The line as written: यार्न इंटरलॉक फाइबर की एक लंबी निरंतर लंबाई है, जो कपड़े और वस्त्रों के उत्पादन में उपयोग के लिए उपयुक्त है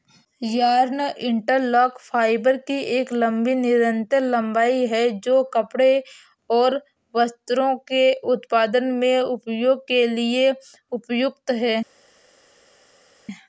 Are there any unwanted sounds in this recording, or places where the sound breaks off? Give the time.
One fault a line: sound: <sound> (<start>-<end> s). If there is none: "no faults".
no faults